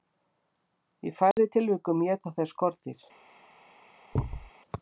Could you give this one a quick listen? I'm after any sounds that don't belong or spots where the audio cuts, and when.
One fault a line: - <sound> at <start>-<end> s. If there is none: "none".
- dropout at 1.3-1.4 s
- thud at 4.1-4.5 s